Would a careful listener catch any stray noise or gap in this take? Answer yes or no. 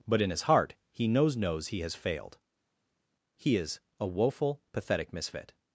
no